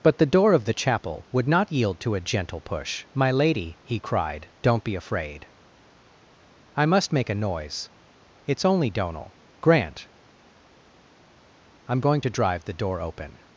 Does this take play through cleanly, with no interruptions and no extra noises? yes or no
yes